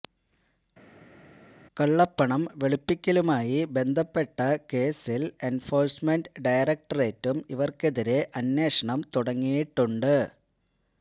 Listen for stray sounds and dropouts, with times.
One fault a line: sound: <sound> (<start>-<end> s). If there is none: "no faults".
no faults